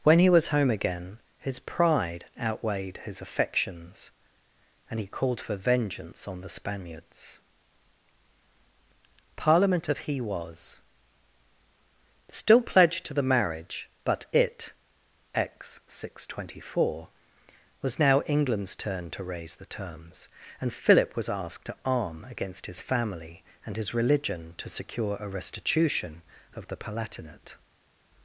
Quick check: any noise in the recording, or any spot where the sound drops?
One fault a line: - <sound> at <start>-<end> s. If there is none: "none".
none